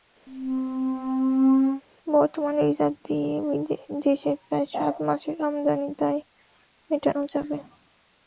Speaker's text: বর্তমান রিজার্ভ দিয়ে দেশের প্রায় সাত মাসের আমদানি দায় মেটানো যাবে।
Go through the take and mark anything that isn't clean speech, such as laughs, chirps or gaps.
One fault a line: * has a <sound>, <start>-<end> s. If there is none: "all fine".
* has a squeak, 0.3-1.8 s